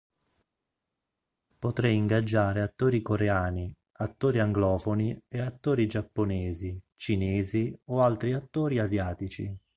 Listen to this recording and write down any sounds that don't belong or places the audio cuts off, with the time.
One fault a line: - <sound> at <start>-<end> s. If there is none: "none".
none